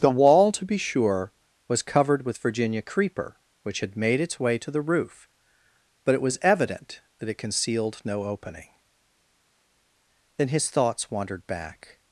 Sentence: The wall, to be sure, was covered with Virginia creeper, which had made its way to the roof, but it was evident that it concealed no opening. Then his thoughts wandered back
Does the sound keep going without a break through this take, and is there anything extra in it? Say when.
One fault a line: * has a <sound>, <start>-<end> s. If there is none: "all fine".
all fine